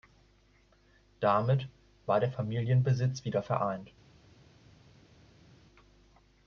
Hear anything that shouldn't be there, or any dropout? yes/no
no